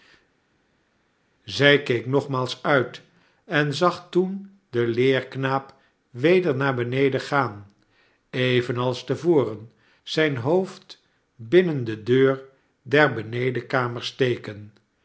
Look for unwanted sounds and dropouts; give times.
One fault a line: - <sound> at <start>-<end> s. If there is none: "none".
none